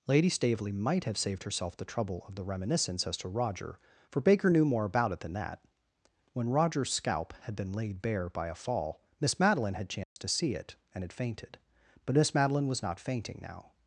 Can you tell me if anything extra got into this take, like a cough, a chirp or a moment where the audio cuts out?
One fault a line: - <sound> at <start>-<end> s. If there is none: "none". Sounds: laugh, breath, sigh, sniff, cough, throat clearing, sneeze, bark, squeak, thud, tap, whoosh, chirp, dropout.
- dropout at 10.0-10.2 s